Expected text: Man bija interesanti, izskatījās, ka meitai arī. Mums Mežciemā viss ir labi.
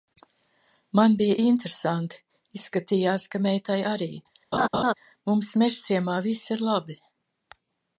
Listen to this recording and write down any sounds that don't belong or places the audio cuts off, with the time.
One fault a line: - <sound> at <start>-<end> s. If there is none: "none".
- laugh at 4.5-4.9 s